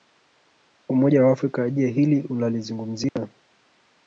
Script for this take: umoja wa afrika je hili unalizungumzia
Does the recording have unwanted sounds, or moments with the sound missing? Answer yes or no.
yes